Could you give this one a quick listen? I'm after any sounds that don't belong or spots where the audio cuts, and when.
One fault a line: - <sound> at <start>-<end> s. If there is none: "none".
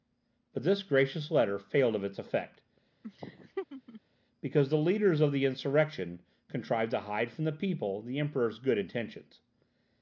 - laugh at 3.0-4.0 s